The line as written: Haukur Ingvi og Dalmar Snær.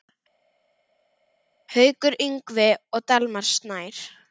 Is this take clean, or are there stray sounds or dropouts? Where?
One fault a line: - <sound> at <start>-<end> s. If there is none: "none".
none